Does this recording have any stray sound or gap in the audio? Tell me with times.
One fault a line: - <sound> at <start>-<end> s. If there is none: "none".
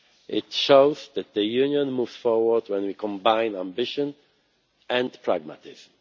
none